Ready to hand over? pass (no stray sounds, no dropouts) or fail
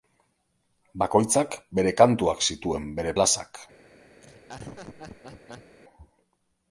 fail